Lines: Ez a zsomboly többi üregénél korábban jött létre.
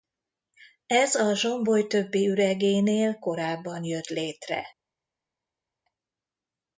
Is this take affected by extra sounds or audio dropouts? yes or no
no